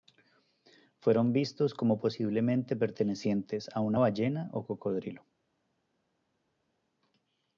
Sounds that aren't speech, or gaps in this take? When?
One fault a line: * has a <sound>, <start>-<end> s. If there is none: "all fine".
all fine